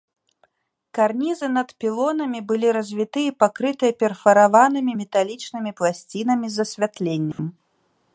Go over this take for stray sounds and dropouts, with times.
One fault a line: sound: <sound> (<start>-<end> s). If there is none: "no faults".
sound: dropout (7.3-7.4 s)